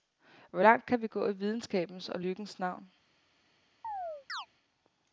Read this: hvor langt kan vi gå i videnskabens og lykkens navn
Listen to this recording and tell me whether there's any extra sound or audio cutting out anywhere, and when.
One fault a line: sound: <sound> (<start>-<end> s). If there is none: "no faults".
sound: chirp (3.8-4.5 s)